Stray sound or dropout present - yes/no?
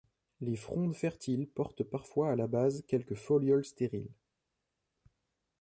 no